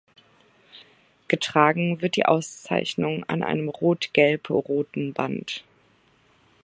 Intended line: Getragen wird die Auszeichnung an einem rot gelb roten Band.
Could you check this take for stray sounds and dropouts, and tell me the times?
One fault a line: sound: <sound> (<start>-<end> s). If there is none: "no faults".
no faults